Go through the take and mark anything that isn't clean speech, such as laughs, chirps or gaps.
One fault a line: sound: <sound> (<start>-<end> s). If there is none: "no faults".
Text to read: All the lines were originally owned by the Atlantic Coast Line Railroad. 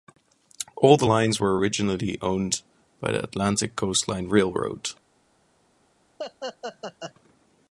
sound: laugh (6.2-7.1 s)